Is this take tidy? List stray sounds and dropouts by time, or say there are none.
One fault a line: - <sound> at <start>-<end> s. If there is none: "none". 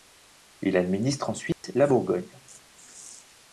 - dropout at 1.5-1.6 s